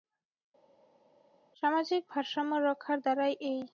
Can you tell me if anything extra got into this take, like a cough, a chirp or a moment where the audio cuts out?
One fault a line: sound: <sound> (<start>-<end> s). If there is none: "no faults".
no faults